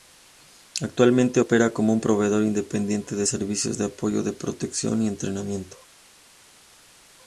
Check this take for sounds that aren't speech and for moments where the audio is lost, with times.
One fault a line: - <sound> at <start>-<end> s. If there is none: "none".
none